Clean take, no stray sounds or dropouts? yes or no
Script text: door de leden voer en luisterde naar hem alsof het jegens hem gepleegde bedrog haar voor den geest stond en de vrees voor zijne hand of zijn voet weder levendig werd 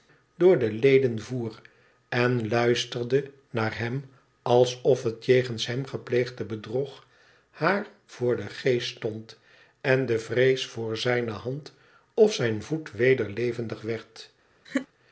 no